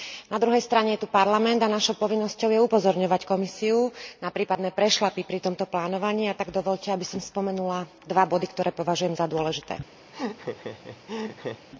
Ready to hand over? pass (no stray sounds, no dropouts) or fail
fail